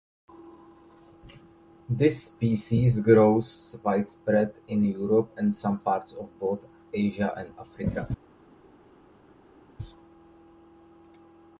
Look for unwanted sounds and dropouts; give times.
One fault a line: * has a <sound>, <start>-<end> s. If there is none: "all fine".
all fine